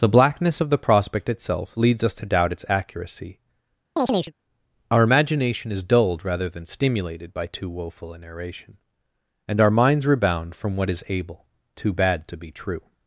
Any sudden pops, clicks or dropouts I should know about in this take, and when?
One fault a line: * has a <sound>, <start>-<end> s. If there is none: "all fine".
* has a chirp, 4.0-4.3 s